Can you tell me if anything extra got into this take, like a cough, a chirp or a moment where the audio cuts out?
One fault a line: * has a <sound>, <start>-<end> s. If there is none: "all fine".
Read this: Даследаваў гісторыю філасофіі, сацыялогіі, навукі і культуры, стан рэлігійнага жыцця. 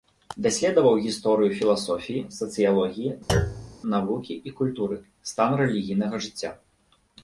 * has a thud, 3.3-3.8 s